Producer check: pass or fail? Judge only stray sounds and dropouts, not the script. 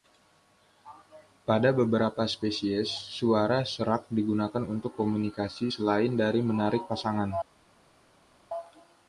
pass